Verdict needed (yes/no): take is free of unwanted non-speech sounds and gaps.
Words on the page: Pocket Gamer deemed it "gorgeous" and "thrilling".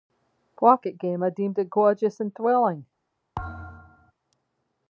no